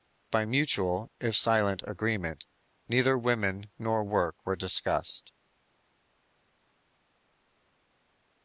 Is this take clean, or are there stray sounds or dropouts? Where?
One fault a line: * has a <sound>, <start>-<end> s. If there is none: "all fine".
all fine